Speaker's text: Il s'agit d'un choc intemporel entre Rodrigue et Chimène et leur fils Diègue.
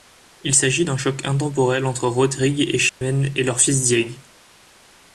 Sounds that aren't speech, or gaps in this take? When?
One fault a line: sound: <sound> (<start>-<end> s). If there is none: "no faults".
sound: dropout (2.9-3.0 s)